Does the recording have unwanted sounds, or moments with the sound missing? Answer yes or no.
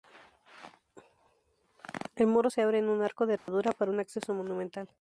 yes